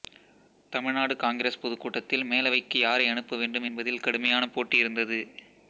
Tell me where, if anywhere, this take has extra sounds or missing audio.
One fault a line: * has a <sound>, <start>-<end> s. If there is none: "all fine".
all fine